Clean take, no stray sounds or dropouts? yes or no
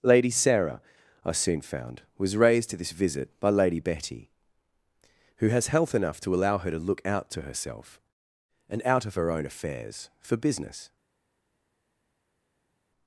yes